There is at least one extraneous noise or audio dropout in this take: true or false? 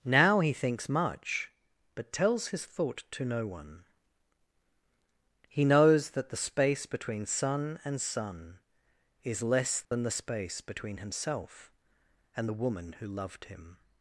true